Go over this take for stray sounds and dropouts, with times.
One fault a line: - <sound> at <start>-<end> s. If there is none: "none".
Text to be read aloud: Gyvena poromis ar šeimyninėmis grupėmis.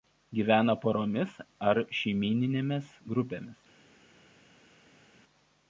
none